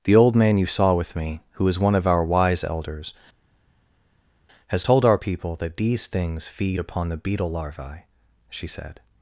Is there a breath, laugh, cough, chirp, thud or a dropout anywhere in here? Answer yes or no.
no